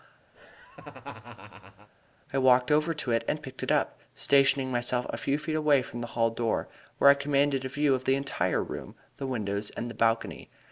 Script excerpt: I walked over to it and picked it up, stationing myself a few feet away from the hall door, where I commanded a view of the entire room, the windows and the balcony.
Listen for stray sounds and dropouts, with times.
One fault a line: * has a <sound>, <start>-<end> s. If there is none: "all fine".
* has a laugh, 0.3-1.9 s